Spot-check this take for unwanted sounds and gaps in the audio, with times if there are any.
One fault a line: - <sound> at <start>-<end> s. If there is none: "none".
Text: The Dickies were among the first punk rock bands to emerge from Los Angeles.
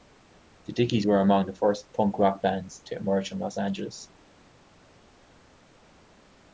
none